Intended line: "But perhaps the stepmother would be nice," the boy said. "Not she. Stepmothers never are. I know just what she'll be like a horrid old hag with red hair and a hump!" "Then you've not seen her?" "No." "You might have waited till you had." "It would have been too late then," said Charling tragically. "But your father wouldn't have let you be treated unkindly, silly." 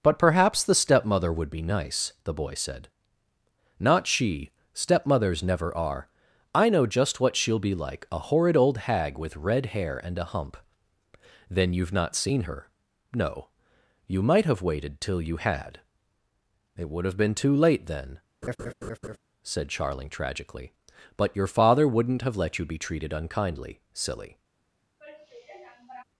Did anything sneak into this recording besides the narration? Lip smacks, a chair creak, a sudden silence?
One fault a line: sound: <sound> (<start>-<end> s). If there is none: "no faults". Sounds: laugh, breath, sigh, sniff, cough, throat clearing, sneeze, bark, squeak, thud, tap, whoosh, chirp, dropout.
sound: laugh (18.4-19.2 s)
sound: sigh (25.0-26.0 s)